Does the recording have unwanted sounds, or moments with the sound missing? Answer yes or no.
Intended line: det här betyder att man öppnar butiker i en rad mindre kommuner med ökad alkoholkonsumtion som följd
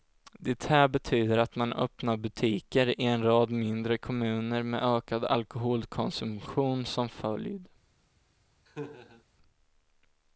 yes